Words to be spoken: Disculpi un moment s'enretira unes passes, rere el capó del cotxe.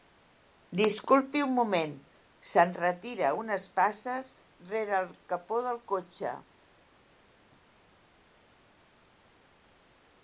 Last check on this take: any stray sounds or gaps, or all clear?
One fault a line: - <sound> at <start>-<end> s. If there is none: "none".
none